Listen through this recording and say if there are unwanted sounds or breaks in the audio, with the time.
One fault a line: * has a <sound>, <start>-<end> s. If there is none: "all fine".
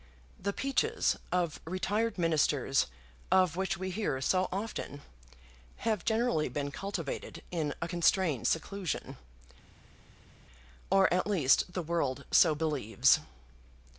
all fine